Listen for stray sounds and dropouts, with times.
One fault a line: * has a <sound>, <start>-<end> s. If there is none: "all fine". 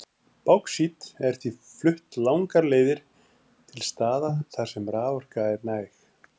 all fine